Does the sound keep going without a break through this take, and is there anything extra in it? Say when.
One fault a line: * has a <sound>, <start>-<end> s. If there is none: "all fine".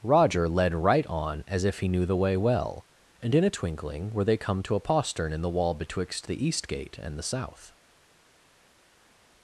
all fine